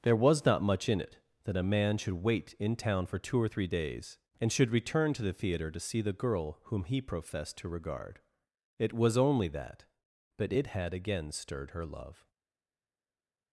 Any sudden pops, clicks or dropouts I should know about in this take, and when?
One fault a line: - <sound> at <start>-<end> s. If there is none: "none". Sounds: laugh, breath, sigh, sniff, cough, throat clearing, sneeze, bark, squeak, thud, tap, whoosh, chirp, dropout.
none